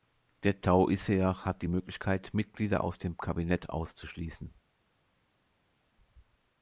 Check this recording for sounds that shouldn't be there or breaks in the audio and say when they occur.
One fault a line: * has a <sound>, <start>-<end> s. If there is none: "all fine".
all fine